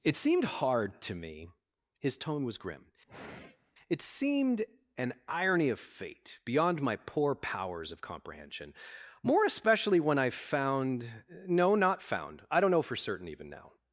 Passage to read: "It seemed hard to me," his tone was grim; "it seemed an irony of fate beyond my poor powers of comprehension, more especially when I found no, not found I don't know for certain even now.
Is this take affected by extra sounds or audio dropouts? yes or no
yes